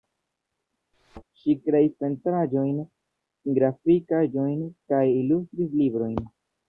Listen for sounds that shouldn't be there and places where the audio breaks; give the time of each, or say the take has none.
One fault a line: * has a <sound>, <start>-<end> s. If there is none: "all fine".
* has a thud, 0.9-1.2 s